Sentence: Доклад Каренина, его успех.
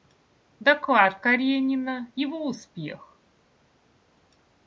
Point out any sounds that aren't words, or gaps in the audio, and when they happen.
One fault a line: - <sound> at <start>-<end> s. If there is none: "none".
none